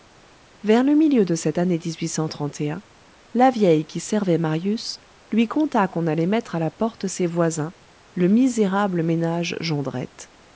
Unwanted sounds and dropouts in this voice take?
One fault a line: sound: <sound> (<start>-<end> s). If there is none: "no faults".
no faults